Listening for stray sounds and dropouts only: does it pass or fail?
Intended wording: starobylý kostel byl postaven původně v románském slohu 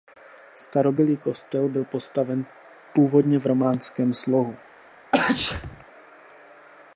fail